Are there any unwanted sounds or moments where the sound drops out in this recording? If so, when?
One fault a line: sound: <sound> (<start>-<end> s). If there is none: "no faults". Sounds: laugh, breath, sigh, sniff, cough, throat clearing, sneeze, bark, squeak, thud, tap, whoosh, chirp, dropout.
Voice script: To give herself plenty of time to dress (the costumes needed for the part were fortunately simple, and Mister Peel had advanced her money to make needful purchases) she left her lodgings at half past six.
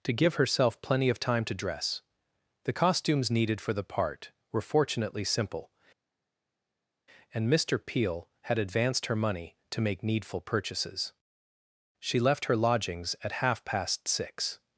no faults